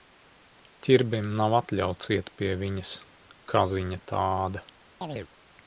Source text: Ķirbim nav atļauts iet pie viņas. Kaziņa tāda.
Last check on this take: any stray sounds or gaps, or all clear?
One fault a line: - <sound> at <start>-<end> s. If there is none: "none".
- chirp at 5.0-5.3 s